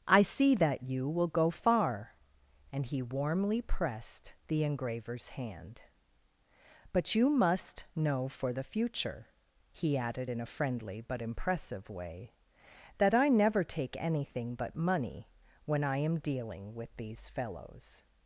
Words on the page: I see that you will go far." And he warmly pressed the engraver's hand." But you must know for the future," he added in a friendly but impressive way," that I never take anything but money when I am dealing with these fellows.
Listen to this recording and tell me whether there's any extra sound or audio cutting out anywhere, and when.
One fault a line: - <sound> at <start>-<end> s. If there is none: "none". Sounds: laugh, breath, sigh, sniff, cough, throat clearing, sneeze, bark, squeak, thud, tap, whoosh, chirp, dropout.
none